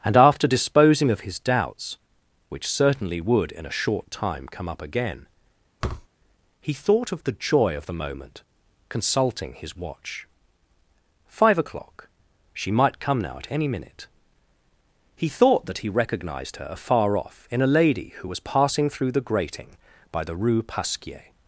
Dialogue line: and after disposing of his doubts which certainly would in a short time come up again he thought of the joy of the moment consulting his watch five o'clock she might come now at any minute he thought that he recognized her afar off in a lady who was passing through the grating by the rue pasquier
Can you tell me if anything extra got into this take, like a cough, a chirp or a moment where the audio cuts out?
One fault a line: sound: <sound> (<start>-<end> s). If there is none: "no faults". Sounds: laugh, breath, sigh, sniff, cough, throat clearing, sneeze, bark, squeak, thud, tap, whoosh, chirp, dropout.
sound: thud (5.8-6.1 s)